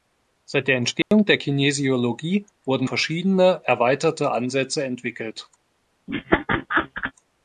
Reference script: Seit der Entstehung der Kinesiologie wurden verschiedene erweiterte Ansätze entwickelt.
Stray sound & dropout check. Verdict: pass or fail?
fail